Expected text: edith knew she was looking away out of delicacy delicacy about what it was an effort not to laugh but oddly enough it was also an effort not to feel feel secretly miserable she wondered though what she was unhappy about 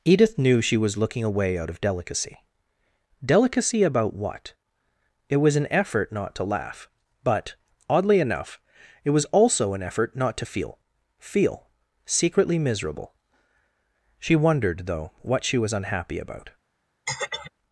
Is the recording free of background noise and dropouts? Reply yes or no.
no